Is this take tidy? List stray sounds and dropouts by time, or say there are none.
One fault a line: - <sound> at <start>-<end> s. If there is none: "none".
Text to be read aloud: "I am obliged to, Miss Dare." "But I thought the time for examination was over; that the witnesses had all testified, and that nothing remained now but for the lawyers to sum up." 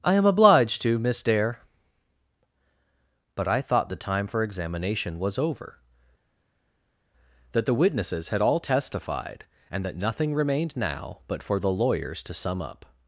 none